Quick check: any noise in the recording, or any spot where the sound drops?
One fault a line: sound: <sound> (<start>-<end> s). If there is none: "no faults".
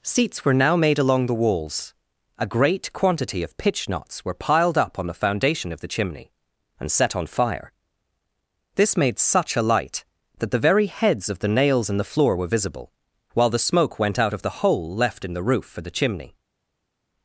no faults